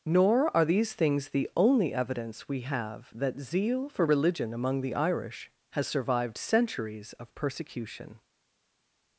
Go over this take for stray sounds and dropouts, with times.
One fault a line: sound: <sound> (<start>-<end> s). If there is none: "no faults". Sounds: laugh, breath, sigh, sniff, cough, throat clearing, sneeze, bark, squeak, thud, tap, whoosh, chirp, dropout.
no faults